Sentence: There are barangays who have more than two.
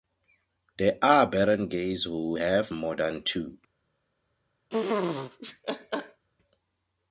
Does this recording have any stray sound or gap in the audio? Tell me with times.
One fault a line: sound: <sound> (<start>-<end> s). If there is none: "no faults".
sound: laugh (4.7-6.2 s)